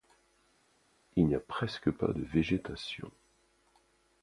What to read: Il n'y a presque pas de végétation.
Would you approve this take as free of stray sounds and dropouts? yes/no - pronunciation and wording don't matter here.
yes